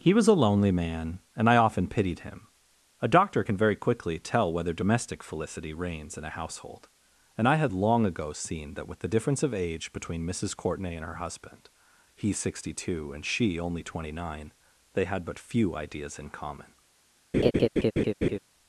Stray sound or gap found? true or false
true